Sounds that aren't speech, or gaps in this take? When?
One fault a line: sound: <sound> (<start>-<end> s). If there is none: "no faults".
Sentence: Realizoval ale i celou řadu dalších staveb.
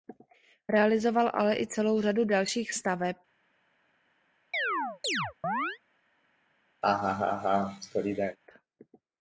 sound: chirp (4.5-5.8 s)
sound: laugh (6.8-8.4 s)